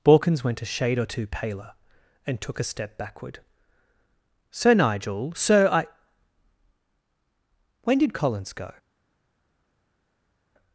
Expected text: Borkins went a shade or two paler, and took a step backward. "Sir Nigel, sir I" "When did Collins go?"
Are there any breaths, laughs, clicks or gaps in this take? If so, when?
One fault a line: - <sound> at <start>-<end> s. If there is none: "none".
none